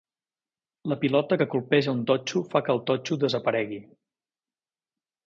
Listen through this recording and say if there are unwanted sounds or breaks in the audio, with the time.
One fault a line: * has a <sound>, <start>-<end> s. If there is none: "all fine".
all fine